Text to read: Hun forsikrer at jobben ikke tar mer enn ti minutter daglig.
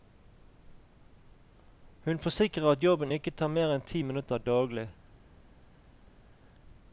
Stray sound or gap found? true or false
false